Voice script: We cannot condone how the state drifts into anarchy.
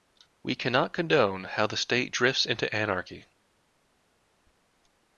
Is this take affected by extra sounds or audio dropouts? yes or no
no